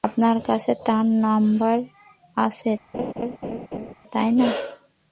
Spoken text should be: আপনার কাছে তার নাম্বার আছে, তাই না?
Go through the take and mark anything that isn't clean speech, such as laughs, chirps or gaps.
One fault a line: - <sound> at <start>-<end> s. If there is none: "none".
- laugh at 2.9-3.9 s